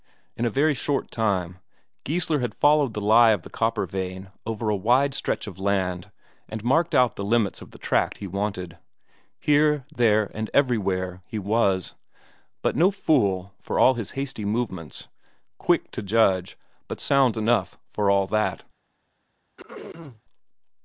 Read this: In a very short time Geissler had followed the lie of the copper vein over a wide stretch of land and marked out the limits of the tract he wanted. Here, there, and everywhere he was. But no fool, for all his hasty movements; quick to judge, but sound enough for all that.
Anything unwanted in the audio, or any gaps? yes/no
yes